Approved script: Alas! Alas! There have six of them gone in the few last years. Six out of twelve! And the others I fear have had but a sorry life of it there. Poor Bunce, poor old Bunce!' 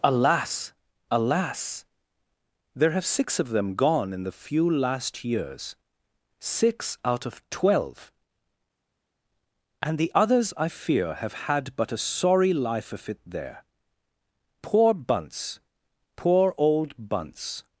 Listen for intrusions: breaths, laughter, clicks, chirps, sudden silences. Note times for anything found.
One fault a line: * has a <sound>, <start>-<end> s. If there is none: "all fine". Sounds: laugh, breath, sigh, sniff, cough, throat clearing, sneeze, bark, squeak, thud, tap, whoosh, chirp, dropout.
all fine